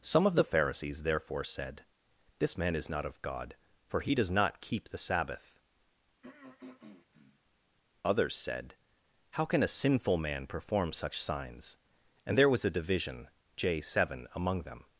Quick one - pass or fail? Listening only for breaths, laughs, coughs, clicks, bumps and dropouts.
fail